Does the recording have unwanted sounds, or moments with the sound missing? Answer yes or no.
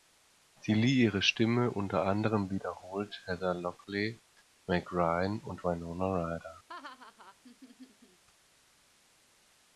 yes